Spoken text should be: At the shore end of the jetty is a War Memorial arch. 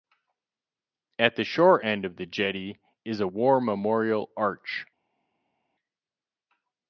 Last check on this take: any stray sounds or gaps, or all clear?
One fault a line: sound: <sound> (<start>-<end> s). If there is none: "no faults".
no faults